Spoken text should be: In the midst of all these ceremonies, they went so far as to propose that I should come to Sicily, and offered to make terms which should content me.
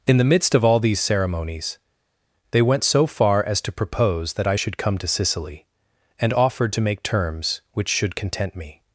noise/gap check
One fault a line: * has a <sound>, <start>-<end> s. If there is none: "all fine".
all fine